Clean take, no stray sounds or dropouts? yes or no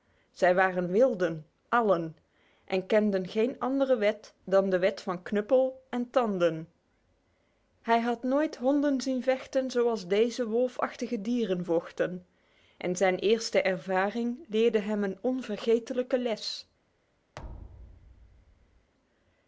no